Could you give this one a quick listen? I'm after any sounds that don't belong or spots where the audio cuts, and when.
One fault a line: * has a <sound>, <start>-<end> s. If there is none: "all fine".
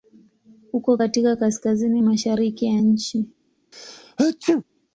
* has a sneeze, 3.7-4.6 s